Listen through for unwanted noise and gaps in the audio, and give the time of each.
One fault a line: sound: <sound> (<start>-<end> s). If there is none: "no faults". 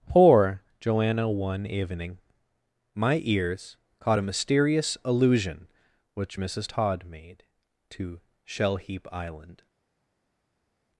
no faults